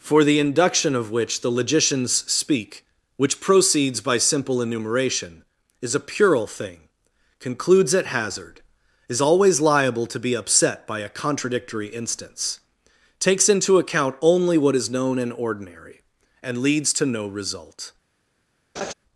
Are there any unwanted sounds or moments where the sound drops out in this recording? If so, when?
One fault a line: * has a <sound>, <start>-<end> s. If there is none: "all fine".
* has a laugh, 18.8-18.9 s